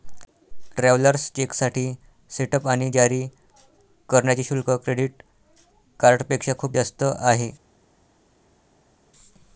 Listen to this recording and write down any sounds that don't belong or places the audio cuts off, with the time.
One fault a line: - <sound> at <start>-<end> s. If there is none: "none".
none